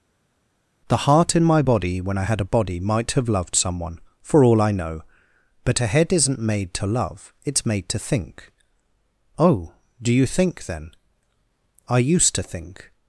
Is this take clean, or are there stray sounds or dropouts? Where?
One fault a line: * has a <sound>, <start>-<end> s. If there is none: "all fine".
all fine